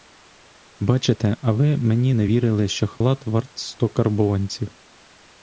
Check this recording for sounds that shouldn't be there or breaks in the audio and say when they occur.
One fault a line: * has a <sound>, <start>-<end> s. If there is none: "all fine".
* has a dropout, 3.0-3.0 s